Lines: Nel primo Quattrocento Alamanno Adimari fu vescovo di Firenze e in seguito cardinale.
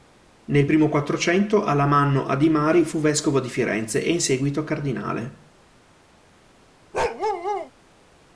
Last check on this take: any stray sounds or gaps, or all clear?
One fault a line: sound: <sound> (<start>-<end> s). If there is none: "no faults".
sound: bark (6.9-7.7 s)